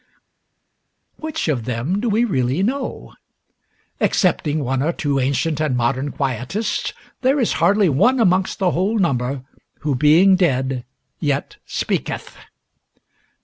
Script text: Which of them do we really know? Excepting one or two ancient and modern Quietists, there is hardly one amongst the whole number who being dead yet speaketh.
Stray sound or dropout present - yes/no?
no